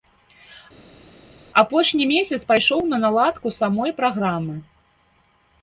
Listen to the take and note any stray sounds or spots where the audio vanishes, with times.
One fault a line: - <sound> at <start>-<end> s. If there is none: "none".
none